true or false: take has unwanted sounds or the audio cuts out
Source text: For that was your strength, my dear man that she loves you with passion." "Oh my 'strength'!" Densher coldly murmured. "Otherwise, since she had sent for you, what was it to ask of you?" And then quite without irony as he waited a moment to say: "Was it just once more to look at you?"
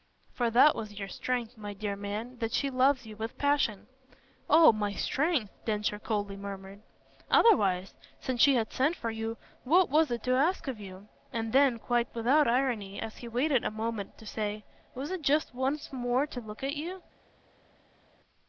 false